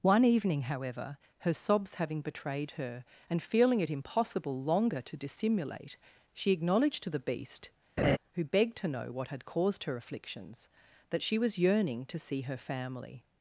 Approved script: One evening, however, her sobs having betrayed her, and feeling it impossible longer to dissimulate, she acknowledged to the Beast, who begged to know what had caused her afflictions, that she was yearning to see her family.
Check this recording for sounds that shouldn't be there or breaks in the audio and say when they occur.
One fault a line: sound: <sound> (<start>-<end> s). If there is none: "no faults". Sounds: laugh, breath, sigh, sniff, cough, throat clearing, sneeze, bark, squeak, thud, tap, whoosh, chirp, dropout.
sound: laugh (8.0-8.2 s)